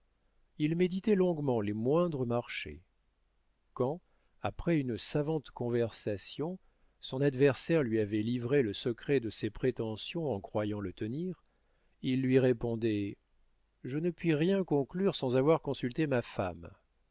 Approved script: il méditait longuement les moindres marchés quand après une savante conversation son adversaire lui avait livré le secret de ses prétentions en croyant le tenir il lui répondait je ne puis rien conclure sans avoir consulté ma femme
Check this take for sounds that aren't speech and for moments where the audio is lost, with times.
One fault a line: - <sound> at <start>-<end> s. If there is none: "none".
none